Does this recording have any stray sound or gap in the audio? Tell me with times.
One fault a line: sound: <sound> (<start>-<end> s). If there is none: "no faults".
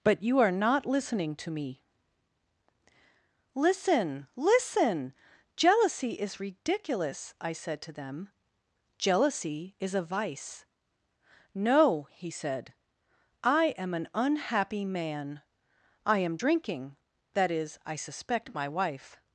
no faults